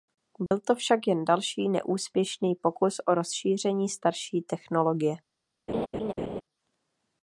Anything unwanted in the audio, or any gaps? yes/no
yes